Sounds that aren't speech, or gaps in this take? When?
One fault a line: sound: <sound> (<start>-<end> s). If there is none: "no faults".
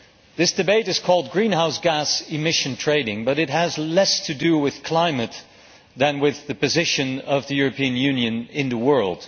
no faults